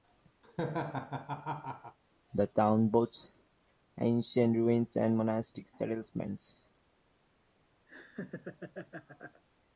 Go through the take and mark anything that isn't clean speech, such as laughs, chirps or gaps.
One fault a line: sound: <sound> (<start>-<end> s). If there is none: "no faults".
sound: laugh (0.4-2.0 s)
sound: laugh (7.9-9.4 s)